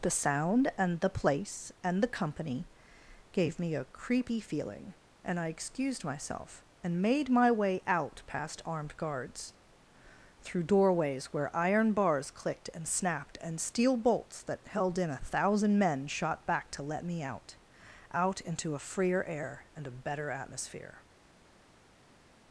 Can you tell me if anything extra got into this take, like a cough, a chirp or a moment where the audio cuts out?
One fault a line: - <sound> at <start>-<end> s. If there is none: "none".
none